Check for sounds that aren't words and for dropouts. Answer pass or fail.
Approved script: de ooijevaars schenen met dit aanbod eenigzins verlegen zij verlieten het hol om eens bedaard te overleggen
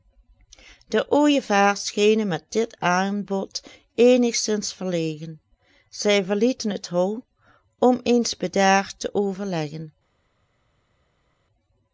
pass